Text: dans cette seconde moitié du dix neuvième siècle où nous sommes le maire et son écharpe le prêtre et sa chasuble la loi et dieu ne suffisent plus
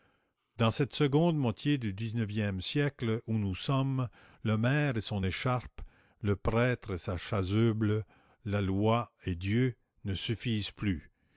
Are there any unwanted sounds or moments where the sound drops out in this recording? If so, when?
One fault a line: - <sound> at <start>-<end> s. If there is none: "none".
none